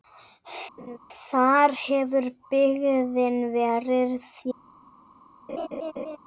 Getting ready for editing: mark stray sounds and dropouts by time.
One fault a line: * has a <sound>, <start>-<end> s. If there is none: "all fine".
* has a laugh, 0.8-1.0 s
* has a laugh, 5.5-6.2 s